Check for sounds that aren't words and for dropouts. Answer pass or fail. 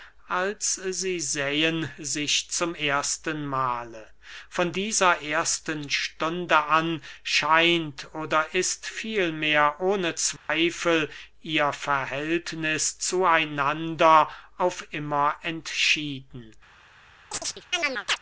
fail